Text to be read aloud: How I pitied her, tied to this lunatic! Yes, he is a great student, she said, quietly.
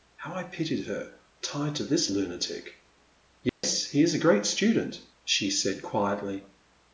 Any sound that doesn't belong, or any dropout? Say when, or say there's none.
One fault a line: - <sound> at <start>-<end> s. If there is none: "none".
- dropout at 3.5-3.6 s